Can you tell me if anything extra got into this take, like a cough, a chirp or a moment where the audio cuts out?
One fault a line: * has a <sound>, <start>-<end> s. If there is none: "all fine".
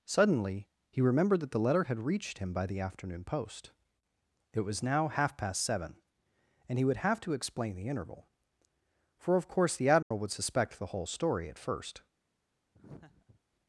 * has a dropout, 10.0-10.1 s
* has a laugh, 12.7-13.4 s